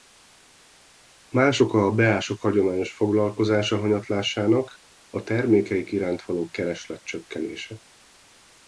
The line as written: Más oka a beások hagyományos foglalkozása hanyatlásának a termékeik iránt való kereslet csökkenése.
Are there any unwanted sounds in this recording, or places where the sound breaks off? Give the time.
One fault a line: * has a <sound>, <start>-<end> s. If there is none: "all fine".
all fine